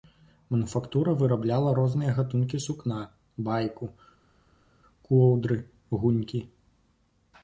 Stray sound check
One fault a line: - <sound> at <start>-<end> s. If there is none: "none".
none